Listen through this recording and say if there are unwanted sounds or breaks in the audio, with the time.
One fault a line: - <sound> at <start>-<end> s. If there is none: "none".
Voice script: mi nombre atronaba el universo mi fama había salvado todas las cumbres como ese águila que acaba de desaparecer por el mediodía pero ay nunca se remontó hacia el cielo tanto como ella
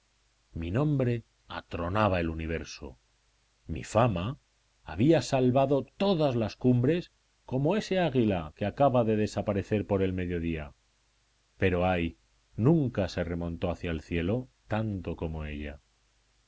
none